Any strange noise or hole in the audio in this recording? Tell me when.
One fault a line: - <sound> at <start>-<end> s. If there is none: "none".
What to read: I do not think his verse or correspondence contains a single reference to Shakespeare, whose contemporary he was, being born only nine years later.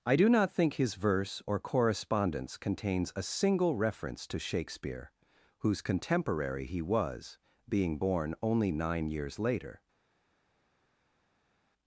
none